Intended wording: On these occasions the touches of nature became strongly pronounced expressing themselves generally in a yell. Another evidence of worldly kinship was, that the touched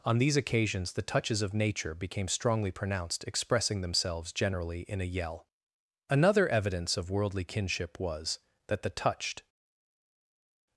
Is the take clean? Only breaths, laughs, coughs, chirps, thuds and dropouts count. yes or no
yes